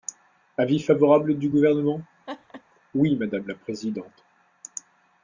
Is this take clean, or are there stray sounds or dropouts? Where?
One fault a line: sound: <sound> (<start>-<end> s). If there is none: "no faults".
sound: laugh (2.3-2.6 s)